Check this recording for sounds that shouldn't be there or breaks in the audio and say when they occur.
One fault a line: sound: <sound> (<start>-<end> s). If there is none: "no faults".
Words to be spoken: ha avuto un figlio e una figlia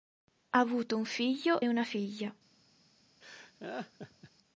sound: laugh (3.2-4.3 s)